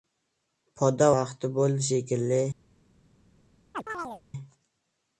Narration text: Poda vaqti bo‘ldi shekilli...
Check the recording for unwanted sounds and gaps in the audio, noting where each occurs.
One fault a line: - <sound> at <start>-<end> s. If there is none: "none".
- chirp at 3.7-4.2 s